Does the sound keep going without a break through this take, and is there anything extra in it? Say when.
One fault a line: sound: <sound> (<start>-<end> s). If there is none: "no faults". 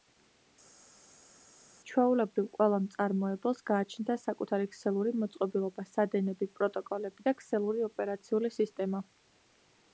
no faults